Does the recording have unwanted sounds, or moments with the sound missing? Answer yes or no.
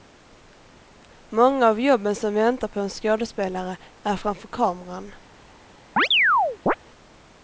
yes